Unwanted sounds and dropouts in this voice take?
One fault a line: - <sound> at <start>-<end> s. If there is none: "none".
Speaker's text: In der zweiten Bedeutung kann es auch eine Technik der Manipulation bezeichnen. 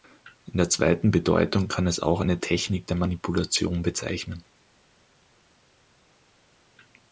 none